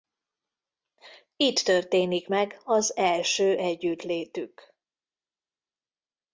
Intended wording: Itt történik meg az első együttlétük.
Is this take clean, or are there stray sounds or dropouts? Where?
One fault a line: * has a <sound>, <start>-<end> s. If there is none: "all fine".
all fine